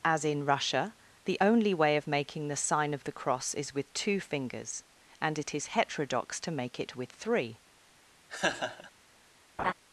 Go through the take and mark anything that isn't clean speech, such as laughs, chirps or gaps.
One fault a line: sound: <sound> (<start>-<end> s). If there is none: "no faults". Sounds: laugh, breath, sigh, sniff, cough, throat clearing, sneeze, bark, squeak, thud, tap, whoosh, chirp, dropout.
sound: laugh (8.3-8.9 s)
sound: laugh (9.6-9.7 s)